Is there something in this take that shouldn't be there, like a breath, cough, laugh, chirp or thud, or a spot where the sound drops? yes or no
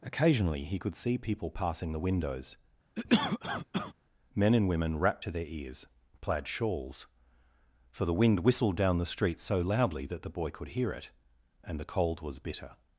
yes